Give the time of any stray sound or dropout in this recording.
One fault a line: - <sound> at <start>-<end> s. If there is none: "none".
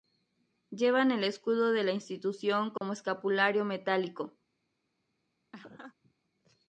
- dropout at 2.8-2.8 s
- laugh at 5.5-6.1 s